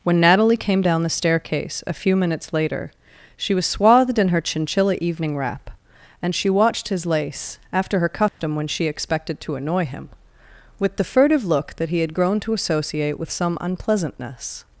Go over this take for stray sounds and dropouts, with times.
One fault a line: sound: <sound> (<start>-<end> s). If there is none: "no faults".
sound: dropout (8.3-8.4 s)